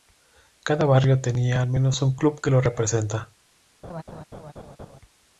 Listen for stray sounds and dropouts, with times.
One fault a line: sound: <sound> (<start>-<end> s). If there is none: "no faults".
sound: laugh (3.8-5.0 s)